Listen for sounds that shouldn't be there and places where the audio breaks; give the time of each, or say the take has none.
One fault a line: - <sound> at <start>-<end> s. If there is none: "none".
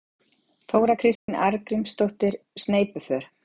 - dropout at 1.2-1.3 s